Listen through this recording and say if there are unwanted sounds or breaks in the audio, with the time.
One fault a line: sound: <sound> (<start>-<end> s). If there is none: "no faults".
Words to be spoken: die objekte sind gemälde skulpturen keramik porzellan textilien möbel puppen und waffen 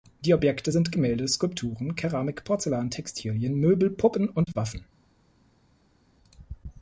no faults